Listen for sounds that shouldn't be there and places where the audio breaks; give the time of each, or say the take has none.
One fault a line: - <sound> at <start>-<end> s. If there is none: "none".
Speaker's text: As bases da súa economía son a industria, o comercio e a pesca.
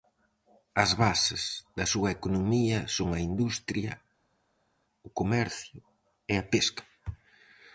none